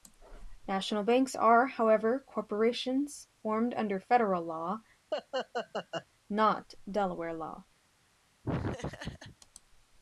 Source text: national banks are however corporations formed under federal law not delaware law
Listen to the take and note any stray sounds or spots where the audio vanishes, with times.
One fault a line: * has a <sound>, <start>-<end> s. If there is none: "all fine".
* has a laugh, 5.1-6.1 s
* has a laugh, 8.4-9.4 s